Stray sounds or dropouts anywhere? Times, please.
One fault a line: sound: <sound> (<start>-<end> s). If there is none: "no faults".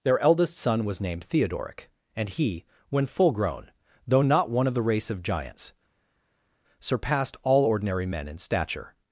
no faults